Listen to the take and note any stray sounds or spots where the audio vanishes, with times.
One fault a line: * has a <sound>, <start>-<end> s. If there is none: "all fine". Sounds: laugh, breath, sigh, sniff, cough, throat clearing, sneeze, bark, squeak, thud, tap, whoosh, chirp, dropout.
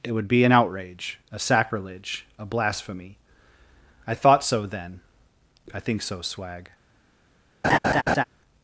* has a laugh, 7.6-8.2 s